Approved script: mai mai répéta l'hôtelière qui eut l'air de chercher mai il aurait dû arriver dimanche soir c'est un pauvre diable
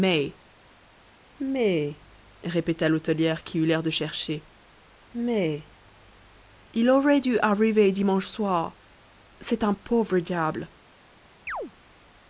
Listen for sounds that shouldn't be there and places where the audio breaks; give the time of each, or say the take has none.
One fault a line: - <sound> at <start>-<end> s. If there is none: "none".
- chirp at 11.5-11.7 s